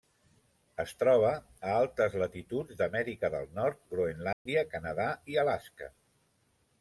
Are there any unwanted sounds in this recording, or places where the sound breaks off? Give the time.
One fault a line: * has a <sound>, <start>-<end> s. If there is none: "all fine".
* has a dropout, 4.3-4.5 s